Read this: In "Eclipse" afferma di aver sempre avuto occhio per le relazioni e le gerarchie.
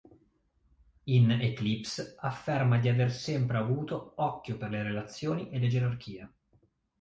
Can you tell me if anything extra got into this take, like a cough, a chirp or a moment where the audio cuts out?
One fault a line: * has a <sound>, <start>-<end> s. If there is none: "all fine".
all fine